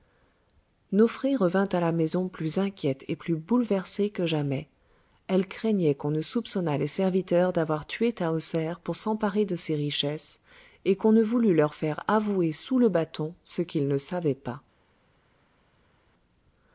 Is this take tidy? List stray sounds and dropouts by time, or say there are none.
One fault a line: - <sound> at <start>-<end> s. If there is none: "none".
none